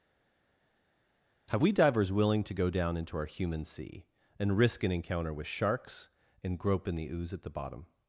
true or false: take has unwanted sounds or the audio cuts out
false